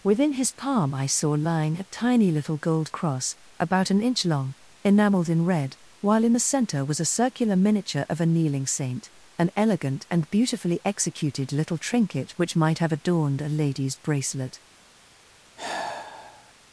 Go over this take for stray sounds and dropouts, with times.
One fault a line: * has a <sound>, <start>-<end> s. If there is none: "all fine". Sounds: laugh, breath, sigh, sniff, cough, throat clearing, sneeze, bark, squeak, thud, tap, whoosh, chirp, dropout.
* has a sigh, 15.6-16.5 s